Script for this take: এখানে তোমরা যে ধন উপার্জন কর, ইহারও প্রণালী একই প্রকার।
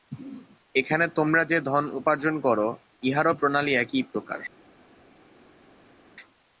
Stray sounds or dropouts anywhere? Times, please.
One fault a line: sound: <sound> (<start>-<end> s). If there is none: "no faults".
no faults